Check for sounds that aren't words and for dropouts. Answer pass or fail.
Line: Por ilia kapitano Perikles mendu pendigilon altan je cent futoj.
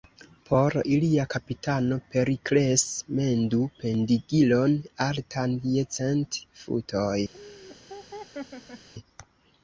fail